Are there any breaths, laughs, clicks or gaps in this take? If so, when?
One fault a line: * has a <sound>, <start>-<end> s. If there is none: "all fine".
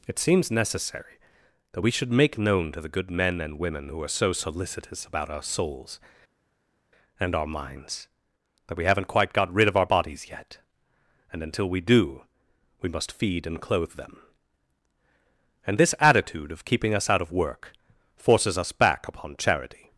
all fine